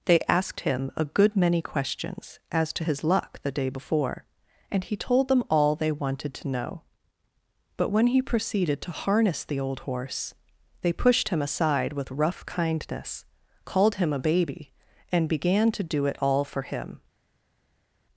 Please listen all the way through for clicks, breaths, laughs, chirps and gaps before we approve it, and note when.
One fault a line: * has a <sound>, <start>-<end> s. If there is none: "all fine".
all fine